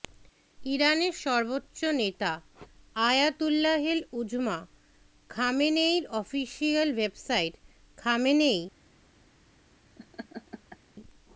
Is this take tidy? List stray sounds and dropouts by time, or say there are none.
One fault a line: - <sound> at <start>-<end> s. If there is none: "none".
- laugh at 10.0-10.8 s